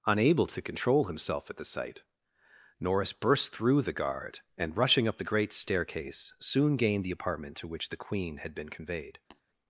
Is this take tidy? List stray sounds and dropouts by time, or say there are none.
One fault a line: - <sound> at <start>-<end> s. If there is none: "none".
- tap at 9.3-9.4 s